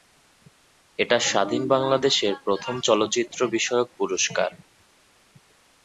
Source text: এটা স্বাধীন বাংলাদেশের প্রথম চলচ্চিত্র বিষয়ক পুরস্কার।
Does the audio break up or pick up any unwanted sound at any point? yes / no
no